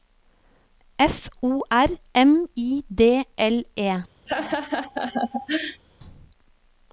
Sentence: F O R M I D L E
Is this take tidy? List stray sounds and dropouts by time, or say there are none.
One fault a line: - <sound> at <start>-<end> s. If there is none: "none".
- laugh at 4.3-5.8 s